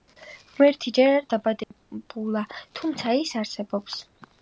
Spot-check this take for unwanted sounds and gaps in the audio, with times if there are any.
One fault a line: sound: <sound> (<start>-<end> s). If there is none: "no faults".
sound: dropout (1.6-1.7 s)